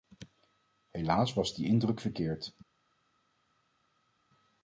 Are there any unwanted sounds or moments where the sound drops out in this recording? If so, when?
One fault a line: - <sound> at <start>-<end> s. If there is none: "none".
none